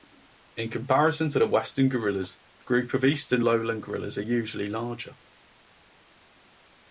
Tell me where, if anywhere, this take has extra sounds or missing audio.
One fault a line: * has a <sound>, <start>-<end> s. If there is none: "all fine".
all fine